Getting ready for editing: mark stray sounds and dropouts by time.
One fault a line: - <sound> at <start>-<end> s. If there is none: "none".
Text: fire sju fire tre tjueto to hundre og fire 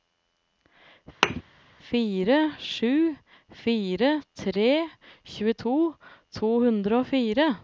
- thud at 1.2-1.4 s